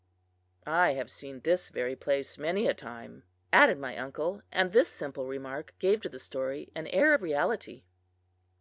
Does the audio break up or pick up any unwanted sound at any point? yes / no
no